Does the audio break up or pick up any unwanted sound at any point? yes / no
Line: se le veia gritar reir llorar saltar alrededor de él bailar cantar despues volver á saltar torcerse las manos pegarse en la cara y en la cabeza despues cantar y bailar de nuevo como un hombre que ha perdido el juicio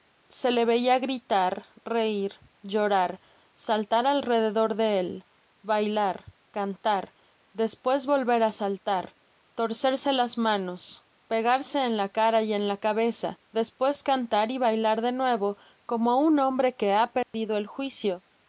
yes